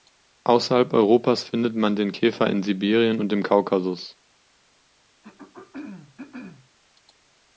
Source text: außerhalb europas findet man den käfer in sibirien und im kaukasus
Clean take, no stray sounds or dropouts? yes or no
no